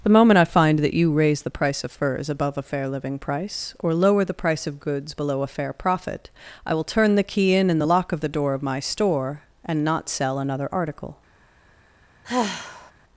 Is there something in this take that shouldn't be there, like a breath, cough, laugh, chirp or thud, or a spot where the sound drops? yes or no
yes